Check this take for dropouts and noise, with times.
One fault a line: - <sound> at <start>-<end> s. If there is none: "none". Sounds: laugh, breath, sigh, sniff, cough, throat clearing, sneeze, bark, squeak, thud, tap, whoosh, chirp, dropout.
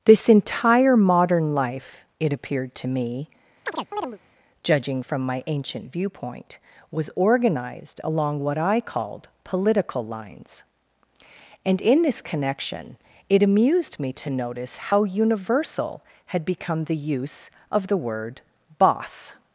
- chirp at 3.7-4.2 s